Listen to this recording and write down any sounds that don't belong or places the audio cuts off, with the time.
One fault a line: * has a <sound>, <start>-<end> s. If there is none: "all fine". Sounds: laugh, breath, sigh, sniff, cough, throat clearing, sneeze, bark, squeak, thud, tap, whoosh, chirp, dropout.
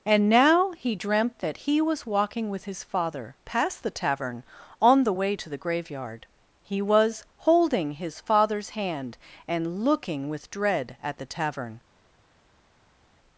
all fine